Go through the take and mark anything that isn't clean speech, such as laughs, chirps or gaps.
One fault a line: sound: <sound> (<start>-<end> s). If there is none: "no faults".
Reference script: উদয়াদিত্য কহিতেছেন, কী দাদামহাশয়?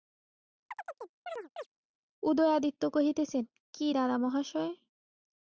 sound: chirp (0.7-1.7 s)